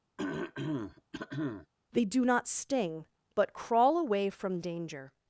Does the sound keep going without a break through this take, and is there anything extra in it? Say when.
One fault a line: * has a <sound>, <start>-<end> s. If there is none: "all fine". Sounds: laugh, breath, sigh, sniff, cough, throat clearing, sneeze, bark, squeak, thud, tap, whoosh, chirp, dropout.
* has a throat clearing, 0.2-1.7 s